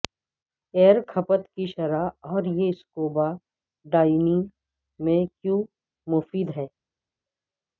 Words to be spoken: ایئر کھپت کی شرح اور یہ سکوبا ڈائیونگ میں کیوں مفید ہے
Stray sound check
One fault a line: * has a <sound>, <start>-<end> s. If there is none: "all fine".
all fine